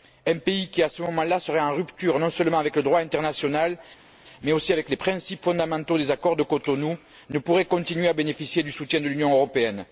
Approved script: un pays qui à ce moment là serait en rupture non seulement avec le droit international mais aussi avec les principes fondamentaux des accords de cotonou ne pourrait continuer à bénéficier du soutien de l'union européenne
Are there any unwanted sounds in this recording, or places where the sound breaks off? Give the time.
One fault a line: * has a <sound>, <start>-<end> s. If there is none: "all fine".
all fine